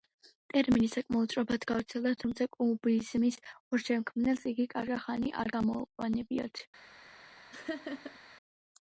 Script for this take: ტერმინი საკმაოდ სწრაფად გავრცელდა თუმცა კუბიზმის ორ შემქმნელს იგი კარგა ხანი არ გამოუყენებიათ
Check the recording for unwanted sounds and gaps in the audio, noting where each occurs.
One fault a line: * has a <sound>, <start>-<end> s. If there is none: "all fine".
* has a laugh, 7.5-8.2 s